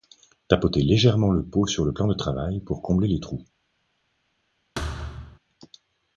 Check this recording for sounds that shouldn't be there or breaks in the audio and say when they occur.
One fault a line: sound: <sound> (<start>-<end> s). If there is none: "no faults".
sound: thud (4.8-5.4 s)